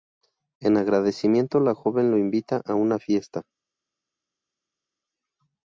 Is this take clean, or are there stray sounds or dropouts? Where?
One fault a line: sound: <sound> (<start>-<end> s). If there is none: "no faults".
no faults